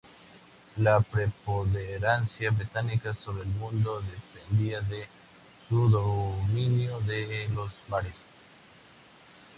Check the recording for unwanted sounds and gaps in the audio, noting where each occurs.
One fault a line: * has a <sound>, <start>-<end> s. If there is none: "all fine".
all fine